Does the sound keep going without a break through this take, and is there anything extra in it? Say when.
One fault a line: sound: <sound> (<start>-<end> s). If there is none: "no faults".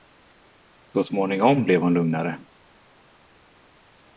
no faults